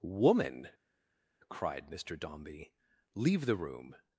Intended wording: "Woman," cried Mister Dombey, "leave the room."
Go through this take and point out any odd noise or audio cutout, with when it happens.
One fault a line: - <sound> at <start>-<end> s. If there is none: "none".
none